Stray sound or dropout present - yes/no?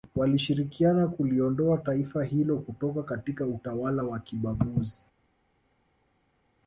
no